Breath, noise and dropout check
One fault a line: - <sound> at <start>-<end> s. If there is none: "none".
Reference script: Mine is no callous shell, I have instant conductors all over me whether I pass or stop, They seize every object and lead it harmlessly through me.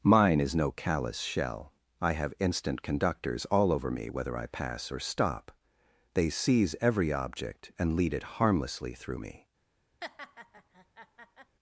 - laugh at 10.0-11.6 s